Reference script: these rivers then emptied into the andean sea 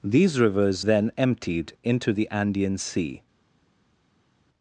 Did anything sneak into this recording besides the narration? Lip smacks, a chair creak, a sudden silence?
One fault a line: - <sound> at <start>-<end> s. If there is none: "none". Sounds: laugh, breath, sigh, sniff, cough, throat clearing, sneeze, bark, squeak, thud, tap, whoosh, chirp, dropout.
none